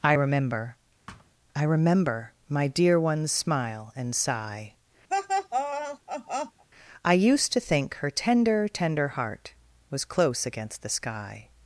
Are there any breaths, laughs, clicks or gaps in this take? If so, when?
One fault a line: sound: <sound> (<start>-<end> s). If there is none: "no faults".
sound: thud (1.1-1.3 s)
sound: laugh (5.1-6.6 s)